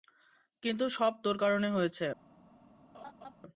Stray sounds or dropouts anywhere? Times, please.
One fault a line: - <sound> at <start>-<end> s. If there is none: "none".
- laugh at 2.9-3.3 s